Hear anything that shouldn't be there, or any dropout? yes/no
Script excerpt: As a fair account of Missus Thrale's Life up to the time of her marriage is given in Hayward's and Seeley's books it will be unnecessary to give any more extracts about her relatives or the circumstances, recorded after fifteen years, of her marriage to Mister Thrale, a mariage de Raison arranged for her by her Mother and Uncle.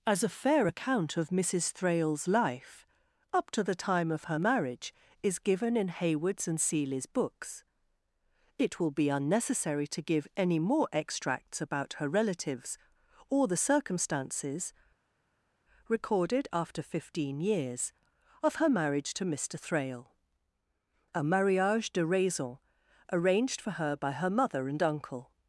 no